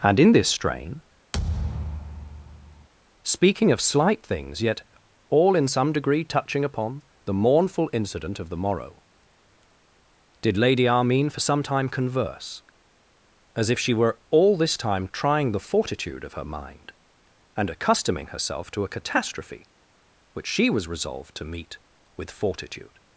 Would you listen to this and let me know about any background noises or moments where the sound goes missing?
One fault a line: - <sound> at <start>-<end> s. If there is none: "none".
- thud at 1.3-2.9 s